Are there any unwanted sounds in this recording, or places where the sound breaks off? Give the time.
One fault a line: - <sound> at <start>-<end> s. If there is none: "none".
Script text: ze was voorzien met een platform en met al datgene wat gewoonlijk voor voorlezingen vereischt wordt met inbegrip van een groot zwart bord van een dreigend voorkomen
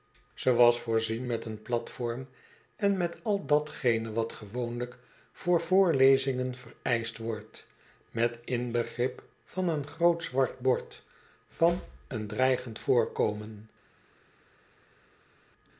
none